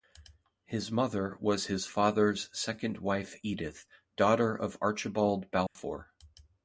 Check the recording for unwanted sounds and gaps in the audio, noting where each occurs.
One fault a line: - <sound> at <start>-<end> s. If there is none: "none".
- dropout at 5.7-5.8 s